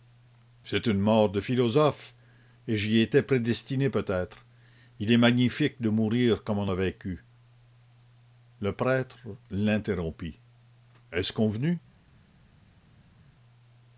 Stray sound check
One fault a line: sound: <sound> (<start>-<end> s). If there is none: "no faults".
no faults